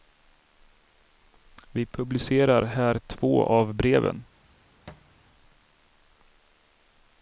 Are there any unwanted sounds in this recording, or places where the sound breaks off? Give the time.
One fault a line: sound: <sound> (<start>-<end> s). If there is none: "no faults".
sound: thud (4.9-5.1 s)